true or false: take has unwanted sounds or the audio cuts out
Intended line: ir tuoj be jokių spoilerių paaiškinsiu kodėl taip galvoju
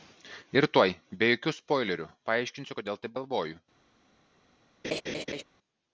true